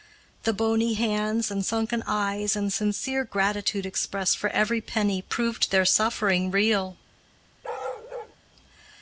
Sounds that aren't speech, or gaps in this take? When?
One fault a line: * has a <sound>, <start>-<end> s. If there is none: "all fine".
* has a bark, 7.6-8.4 s